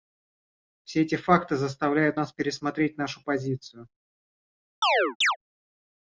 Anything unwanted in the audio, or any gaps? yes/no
yes